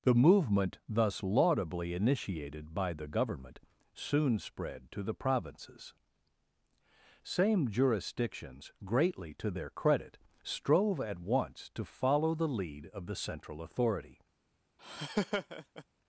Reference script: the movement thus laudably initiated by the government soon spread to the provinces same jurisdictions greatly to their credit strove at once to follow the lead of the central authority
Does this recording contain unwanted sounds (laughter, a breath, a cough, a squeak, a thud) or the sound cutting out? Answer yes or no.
yes